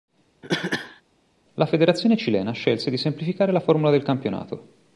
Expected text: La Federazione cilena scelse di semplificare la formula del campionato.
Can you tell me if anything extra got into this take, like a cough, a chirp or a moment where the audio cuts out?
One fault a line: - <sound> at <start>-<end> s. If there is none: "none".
- cough at 0.4-1.0 s